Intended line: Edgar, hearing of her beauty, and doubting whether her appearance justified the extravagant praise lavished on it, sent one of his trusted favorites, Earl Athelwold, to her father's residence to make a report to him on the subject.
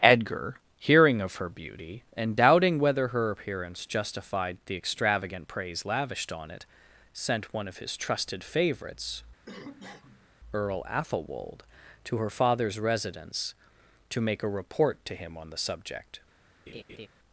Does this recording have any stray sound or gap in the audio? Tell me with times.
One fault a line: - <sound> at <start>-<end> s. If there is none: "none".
- cough at 9.5-10.3 s
- laugh at 16.7-17.1 s